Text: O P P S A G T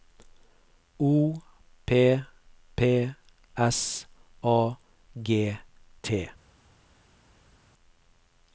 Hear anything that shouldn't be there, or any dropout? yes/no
no